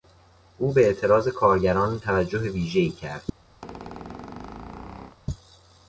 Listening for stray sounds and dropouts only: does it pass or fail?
fail